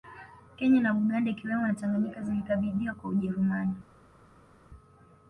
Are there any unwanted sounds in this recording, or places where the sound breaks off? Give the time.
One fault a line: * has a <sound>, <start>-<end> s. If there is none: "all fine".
all fine